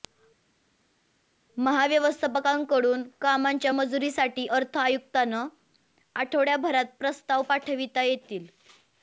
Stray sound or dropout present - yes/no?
no